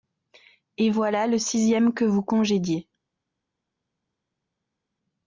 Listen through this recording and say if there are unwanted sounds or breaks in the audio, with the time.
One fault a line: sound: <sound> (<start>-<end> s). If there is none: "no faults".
no faults